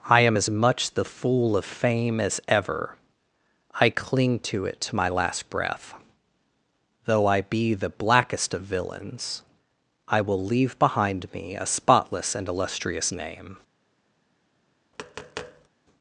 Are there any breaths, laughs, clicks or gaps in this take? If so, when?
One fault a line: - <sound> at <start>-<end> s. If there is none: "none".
- tap at 14.9-15.7 s